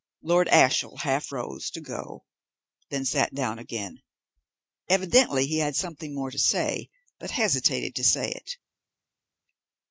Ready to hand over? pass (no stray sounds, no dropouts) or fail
pass